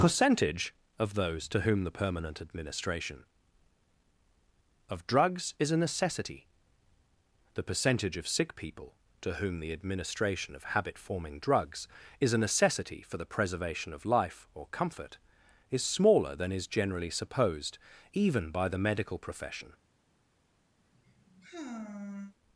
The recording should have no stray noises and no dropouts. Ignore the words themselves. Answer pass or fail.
fail